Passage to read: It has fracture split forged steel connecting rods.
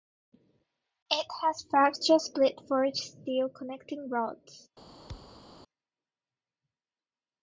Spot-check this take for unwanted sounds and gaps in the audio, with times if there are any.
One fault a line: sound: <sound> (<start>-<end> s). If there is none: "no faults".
sound: thud (5.1-5.5 s)